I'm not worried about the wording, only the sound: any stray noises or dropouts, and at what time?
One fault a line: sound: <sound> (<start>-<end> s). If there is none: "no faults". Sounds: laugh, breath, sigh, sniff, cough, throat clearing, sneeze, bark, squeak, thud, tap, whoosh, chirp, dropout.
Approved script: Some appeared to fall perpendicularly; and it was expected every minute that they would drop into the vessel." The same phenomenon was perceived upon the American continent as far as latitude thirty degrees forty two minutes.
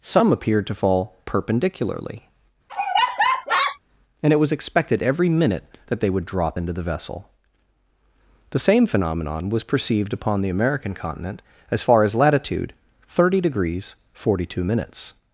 sound: laugh (2.7-3.8 s)